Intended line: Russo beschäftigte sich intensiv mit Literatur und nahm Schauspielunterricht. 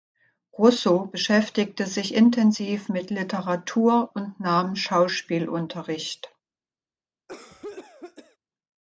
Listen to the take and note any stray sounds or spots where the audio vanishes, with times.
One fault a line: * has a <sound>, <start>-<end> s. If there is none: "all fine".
* has a cough, 7.3-8.4 s